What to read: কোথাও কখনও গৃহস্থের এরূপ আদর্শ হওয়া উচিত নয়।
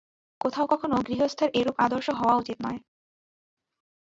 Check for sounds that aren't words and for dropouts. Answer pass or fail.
pass